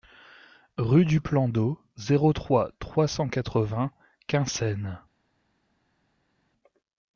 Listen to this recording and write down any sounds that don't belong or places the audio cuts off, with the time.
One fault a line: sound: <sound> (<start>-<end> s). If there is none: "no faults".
no faults